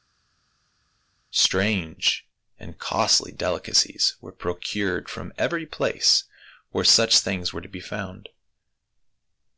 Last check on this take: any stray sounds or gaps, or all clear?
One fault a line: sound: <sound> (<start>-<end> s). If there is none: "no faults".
no faults